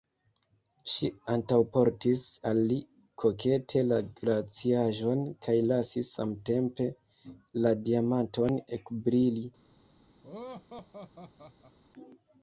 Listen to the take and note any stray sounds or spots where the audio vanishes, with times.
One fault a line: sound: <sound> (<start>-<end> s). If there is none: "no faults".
sound: laugh (10.2-11.8 s)